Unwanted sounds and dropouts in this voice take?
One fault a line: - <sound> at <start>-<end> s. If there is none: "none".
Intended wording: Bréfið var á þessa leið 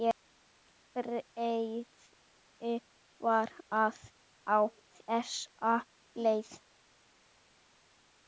none